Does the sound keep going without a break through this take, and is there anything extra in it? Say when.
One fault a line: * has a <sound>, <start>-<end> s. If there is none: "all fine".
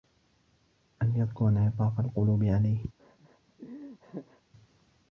* has a laugh, 3.0-4.4 s